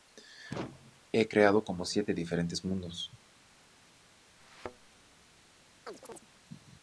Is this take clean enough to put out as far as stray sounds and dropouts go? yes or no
no